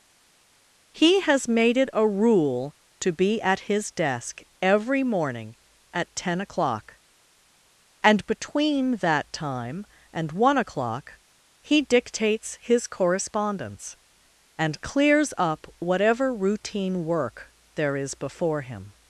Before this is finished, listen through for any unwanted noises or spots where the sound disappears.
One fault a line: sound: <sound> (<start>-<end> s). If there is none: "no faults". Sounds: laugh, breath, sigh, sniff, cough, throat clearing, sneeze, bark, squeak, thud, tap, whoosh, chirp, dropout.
no faults